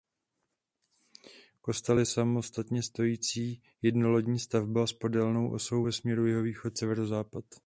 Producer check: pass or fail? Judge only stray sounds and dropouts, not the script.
pass